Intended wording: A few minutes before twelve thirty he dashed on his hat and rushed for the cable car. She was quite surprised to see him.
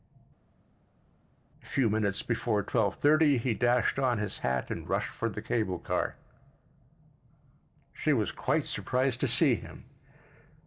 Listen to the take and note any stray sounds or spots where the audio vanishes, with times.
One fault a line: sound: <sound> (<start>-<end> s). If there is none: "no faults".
no faults